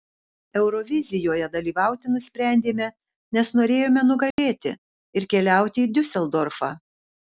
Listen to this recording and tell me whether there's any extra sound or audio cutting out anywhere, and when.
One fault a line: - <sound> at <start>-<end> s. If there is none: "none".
- dropout at 4.3-4.4 s